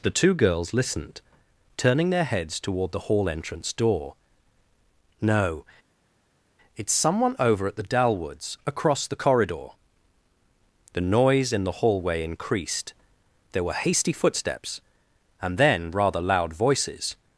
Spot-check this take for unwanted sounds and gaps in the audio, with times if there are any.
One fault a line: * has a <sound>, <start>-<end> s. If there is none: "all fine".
all fine